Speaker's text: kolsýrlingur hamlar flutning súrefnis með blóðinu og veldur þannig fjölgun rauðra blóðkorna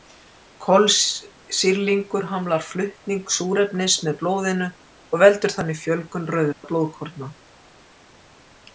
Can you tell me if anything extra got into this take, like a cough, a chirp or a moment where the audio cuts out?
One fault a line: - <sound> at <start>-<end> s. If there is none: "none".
- dropout at 6.5-6.6 s